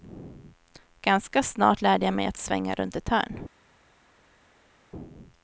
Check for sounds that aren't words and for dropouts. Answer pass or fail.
pass